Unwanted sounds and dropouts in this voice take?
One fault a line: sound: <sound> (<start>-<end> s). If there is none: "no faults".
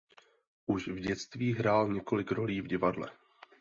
no faults